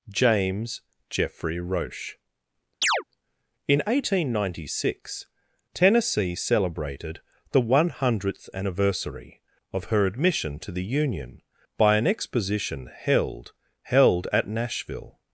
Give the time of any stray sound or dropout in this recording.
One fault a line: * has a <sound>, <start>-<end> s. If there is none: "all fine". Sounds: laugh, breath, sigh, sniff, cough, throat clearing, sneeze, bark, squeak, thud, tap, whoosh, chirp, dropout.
* has a chirp, 2.8-3.0 s